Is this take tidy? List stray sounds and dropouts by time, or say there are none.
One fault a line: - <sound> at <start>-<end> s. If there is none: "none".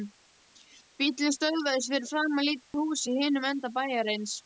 - dropout at 2.6-2.7 s